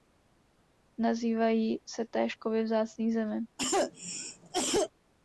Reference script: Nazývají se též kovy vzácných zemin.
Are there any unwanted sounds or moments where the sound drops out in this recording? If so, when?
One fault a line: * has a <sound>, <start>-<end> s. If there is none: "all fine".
* has a cough, 3.6-4.9 s